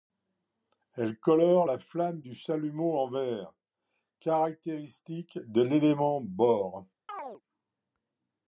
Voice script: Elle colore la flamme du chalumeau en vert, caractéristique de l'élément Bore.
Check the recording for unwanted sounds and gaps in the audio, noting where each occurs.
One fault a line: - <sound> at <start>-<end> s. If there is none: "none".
- chirp at 7.1-7.4 s